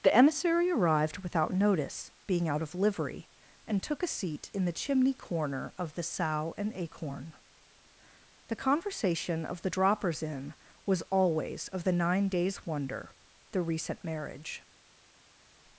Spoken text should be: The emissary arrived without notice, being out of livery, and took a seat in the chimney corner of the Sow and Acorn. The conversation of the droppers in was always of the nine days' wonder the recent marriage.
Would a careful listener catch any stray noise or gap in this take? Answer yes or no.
no